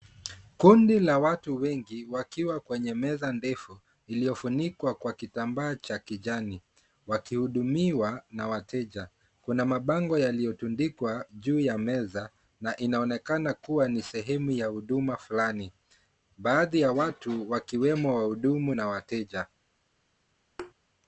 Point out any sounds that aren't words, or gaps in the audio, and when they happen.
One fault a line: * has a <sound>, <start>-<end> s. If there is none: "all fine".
* has a thud, 20.6-20.7 s